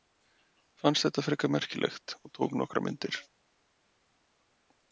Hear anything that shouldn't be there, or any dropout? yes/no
no